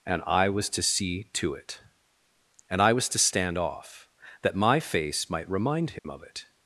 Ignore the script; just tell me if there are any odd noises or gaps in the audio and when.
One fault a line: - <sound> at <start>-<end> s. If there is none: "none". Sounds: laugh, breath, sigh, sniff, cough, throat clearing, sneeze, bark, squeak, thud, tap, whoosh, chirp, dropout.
- dropout at 6.0-6.0 s